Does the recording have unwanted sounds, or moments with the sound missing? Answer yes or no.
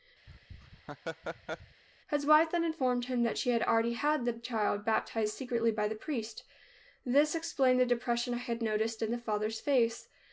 yes